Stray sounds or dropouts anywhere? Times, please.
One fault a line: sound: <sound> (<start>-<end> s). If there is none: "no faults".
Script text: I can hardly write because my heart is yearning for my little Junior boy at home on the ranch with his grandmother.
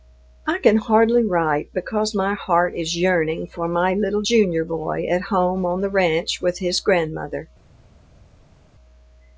no faults